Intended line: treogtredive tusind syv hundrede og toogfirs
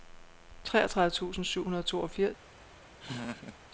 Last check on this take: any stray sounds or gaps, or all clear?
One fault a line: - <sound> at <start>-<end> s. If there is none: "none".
- laugh at 3.0-3.6 s